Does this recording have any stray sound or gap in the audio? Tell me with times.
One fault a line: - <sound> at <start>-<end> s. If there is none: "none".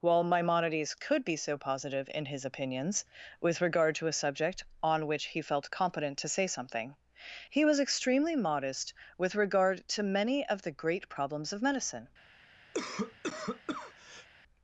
- cough at 12.7-14.3 s